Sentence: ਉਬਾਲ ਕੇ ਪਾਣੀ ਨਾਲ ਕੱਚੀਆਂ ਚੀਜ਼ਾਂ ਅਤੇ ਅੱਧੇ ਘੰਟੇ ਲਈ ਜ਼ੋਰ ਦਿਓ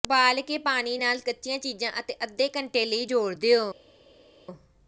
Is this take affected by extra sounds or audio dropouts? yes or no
no